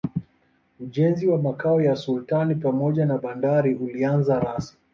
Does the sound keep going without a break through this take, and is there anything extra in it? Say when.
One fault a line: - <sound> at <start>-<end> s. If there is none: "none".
none